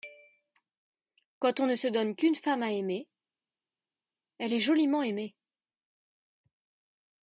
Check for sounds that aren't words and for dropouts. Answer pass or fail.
pass